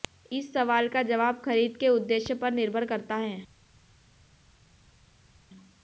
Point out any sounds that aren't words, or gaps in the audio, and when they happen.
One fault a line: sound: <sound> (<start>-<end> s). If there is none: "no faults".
no faults